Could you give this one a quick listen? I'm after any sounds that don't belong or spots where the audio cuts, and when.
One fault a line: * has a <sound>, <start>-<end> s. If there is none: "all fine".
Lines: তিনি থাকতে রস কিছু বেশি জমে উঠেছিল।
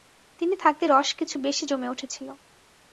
all fine